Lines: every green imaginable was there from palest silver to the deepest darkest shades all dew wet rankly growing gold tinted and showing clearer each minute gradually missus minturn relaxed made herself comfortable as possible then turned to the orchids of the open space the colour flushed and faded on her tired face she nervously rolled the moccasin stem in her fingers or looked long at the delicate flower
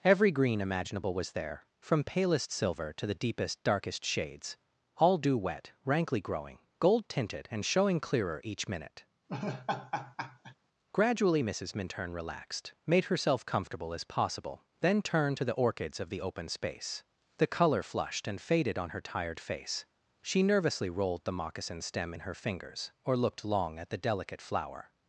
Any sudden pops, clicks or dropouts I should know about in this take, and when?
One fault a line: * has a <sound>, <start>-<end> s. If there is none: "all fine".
* has a laugh, 9.3-10.6 s